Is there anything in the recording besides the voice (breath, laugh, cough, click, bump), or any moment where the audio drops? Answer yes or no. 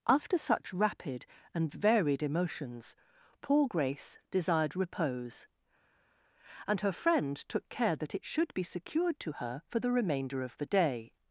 no